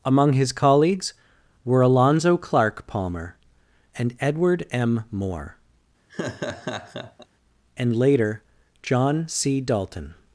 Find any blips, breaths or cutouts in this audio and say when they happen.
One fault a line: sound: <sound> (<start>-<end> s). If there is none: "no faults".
sound: laugh (6.1-7.3 s)